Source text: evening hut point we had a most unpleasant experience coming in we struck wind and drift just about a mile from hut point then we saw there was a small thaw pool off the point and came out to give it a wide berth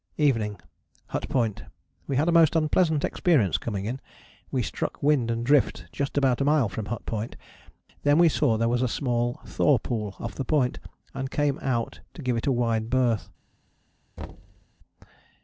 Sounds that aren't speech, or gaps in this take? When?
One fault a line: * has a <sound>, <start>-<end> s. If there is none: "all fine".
* has a thud, 14.2-14.7 s